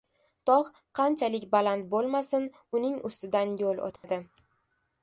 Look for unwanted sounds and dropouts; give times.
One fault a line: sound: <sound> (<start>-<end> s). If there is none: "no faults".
sound: dropout (4.0-4.0 s)